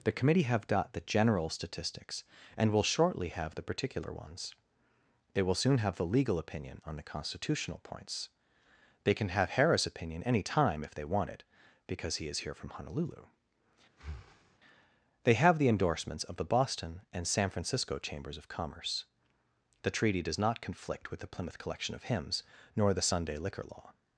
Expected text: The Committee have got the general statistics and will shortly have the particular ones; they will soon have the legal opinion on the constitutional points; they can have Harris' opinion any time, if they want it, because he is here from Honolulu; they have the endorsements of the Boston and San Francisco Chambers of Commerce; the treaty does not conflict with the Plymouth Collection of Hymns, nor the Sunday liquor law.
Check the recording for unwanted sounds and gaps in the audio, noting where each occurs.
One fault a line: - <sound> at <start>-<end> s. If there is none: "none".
- breath at 13.9-14.6 s